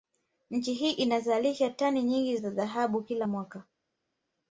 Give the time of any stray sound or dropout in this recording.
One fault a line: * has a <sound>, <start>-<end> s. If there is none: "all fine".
all fine